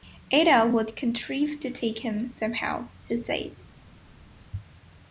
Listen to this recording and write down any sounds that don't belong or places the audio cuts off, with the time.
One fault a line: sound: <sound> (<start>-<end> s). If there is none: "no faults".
no faults